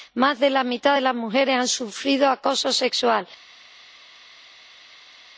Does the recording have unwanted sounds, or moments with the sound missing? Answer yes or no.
no